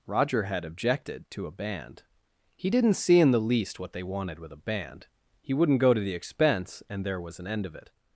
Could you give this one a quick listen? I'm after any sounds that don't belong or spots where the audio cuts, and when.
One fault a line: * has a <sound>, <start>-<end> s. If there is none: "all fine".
all fine